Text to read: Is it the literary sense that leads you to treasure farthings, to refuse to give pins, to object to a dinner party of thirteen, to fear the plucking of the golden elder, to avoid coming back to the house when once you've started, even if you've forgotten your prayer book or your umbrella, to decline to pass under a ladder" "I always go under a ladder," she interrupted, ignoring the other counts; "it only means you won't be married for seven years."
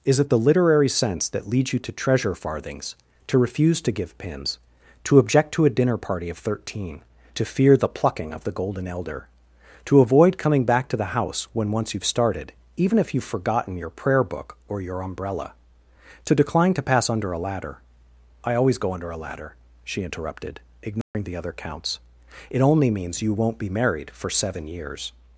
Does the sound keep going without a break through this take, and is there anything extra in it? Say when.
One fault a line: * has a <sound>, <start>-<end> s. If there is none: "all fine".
* has a dropout, 21.0-21.1 s